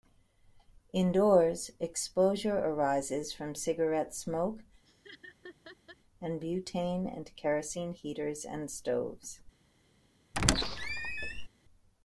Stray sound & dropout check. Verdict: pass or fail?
fail